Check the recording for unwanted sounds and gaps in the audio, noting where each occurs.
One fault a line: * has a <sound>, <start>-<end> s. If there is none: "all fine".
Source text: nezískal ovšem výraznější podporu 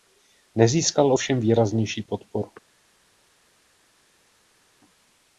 all fine